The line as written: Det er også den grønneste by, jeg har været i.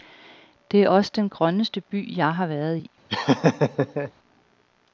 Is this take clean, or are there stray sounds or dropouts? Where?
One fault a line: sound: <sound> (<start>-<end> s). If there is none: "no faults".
sound: laugh (3.1-4.1 s)